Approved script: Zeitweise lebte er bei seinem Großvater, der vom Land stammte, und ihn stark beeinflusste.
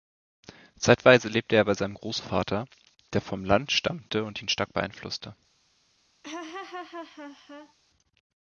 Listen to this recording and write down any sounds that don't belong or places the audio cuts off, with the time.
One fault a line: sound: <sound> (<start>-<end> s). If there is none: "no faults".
sound: laugh (6.2-7.7 s)